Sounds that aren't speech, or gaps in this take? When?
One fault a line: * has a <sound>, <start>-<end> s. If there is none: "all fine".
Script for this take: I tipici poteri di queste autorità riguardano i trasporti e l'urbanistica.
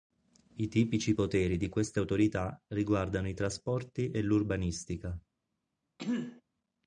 * has a throat clearing, 6.0-6.4 s